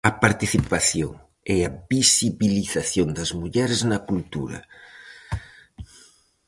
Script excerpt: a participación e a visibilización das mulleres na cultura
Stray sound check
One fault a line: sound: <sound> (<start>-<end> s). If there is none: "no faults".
no faults